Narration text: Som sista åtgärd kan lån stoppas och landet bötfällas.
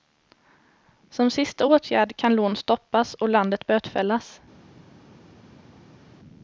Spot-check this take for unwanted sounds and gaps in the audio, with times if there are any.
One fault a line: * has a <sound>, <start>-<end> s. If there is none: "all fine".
all fine